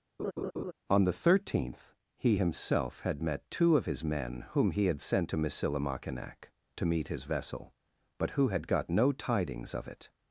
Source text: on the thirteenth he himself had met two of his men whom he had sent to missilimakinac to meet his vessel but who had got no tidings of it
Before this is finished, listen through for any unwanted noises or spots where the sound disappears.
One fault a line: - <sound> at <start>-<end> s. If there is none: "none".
- laugh at 0.2-0.7 s